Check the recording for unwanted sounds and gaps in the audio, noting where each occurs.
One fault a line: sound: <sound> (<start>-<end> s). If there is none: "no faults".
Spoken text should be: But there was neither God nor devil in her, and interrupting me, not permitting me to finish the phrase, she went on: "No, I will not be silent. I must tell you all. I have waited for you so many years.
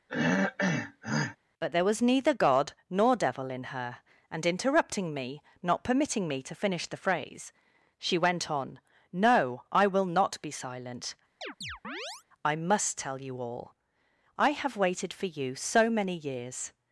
sound: throat clearing (0.1-1.4 s)
sound: chirp (11.4-12.2 s)